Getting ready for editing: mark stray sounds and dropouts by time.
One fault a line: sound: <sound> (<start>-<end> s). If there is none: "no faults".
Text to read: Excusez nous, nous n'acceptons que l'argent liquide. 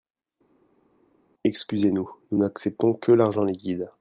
no faults